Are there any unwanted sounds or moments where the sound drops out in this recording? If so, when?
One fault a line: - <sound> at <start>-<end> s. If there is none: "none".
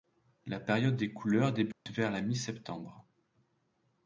- dropout at 1.7-1.9 s